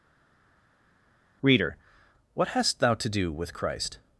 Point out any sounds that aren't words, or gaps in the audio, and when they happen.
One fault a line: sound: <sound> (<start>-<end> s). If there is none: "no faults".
no faults